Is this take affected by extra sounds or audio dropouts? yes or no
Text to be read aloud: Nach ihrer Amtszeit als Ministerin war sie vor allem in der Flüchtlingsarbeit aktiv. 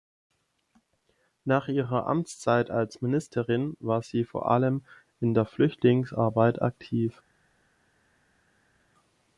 no